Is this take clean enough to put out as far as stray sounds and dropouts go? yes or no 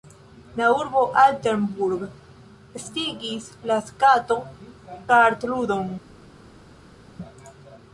yes